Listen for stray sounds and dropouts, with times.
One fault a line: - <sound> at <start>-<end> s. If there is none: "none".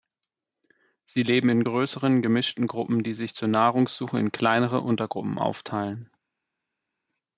none